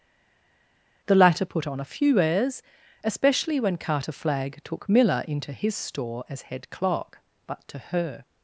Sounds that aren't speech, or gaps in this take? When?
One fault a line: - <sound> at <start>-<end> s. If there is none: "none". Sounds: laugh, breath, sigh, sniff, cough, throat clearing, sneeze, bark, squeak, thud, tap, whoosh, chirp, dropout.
none